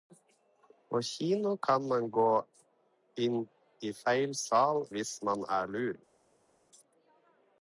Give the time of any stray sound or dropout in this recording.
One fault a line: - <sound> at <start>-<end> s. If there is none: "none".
none